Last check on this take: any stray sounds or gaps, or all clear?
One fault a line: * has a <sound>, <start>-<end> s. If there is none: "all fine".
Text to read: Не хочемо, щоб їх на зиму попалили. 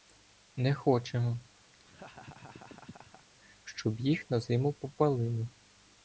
* has a laugh, 1.7-3.3 s